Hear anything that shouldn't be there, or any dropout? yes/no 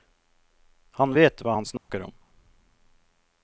yes